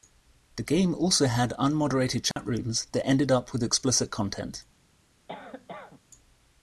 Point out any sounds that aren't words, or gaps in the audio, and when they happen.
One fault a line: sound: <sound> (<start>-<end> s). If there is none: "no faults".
sound: dropout (2.3-2.4 s)
sound: cough (5.3-6.0 s)